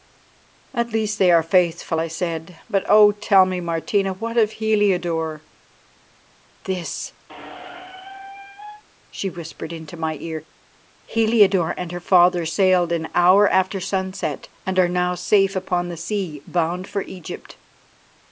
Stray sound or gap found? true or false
true